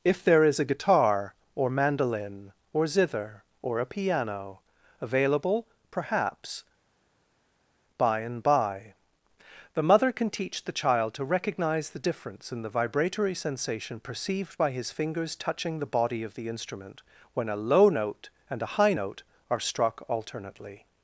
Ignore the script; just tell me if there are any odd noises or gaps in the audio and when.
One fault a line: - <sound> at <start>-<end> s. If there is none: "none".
none